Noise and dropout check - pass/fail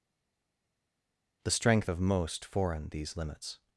pass